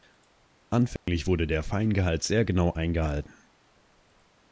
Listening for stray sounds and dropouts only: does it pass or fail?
fail